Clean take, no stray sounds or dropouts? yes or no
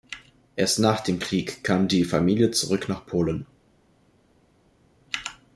yes